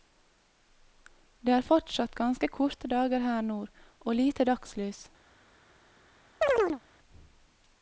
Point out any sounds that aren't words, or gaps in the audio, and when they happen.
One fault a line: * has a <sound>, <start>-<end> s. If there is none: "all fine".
* has a chirp, 6.4-6.8 s